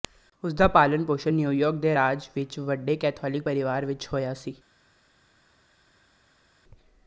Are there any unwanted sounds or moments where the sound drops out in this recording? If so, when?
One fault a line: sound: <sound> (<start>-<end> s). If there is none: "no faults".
no faults